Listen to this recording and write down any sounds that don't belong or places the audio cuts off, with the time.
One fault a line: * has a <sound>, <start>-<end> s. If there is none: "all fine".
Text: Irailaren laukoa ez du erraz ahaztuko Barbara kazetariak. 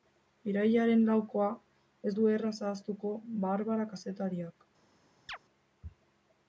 * has a chirp, 5.3-5.4 s